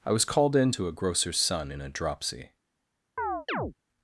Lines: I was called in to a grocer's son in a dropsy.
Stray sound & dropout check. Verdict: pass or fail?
fail